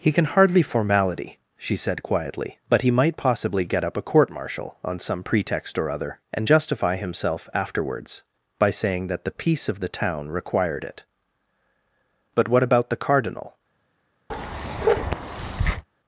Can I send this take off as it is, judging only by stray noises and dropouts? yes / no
no